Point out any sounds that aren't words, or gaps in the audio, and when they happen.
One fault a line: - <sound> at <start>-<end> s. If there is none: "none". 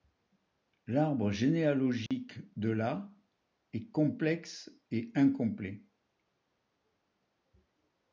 - dropout at 2.1-2.1 s